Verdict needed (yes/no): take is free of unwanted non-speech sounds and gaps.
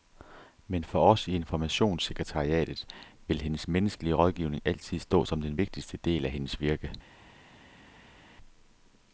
yes